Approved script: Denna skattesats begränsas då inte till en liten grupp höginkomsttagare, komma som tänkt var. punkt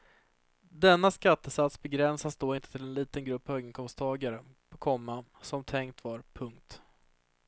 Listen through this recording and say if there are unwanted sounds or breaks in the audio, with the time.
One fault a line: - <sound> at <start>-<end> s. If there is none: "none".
none